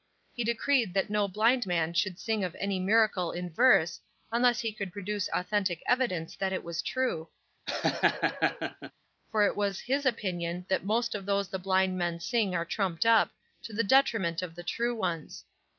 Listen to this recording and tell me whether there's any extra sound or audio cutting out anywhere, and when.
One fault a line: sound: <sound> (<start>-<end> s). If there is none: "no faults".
sound: laugh (7.7-8.9 s)